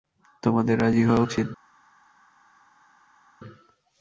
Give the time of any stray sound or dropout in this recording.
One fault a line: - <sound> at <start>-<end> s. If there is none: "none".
none